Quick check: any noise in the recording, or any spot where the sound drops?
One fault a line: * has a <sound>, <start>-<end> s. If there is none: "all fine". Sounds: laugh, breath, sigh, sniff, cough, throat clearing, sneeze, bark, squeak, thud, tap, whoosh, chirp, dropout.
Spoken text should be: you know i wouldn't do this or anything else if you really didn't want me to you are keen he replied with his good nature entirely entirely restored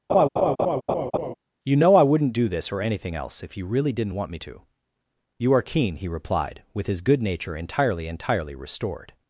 * has a laugh, 0.1-1.3 s